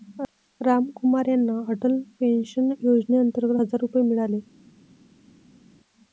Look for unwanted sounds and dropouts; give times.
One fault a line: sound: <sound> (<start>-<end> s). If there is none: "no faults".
no faults